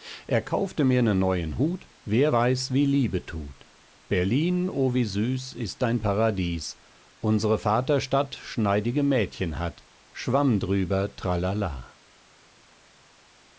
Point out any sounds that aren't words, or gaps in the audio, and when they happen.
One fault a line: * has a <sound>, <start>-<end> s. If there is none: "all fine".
all fine